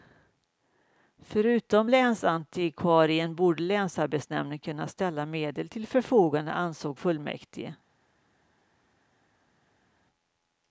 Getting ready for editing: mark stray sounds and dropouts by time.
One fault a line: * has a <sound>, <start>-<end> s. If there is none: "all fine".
all fine